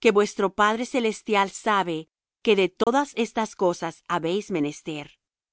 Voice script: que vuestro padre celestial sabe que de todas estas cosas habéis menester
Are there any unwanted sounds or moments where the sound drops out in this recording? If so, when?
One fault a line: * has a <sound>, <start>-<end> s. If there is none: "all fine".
* has a dropout, 2.8-2.9 s